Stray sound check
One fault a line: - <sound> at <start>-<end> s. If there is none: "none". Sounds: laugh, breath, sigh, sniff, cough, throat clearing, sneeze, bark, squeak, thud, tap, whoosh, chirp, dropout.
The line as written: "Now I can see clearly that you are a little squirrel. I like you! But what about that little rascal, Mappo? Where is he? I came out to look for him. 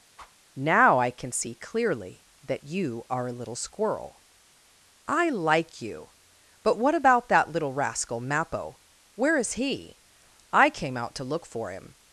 - whoosh at 0.2-0.4 s